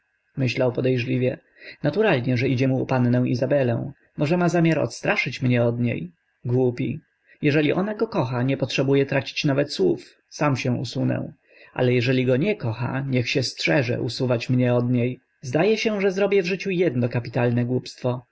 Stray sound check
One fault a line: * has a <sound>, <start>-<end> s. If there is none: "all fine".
all fine